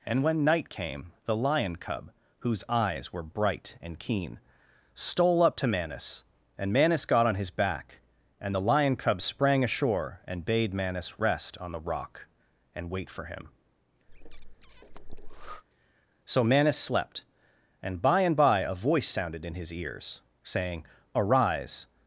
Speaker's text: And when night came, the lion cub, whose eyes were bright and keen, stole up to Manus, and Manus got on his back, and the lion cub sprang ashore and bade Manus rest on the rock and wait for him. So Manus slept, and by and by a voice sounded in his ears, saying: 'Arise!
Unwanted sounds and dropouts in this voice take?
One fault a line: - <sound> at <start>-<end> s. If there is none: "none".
- breath at 14.1-15.6 s